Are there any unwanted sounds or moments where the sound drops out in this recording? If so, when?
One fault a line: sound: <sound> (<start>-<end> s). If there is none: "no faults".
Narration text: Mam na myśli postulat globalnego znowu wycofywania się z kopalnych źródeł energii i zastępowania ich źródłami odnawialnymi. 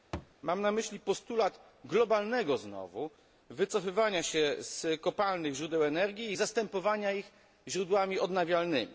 sound: thud (0.1-0.3 s)